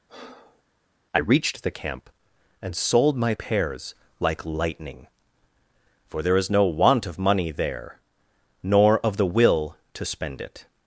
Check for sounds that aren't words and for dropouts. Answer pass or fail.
fail